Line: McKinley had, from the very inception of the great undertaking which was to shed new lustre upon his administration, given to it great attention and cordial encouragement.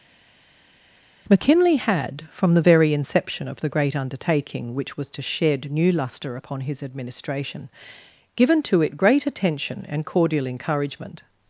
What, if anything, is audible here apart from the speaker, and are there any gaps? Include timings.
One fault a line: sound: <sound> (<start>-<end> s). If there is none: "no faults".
no faults